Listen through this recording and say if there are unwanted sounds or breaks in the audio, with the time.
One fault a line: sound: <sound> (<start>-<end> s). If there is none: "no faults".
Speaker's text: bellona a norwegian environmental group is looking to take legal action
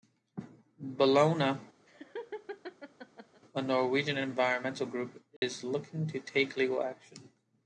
sound: laugh (1.9-3.4 s)
sound: dropout (5.4-5.4 s)